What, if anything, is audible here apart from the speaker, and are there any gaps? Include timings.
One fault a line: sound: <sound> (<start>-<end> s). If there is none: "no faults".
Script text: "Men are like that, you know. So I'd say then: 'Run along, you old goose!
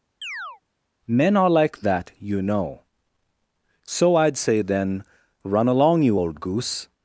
sound: chirp (0.2-0.6 s)